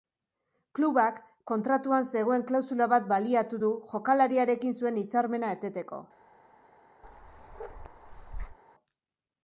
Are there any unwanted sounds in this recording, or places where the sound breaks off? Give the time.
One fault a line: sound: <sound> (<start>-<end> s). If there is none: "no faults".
sound: bark (7.0-8.6 s)